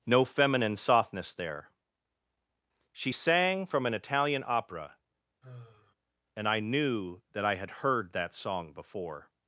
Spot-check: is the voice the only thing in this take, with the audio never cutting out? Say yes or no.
no